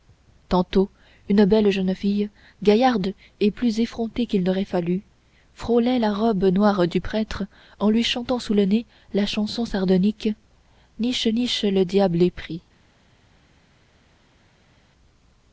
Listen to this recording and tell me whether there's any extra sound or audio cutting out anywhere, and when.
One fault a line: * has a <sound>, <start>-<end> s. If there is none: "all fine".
all fine